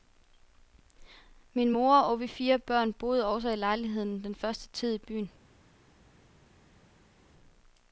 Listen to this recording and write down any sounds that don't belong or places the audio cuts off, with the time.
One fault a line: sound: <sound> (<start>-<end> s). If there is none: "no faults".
no faults